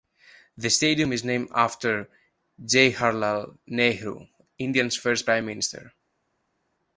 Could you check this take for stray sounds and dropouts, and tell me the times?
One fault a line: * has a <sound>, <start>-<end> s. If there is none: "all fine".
all fine